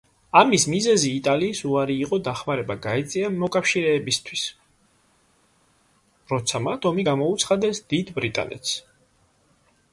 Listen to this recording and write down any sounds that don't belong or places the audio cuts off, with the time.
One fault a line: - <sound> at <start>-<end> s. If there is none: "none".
none